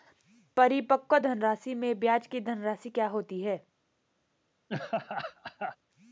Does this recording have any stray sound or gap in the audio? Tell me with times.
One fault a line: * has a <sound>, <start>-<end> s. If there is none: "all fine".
* has a laugh, 4.7-5.8 s